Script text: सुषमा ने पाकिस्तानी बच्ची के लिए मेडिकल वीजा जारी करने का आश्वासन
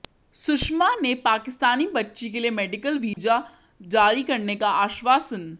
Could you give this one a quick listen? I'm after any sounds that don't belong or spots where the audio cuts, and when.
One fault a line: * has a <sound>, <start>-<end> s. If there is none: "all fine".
* has a dropout, 3.1-3.2 s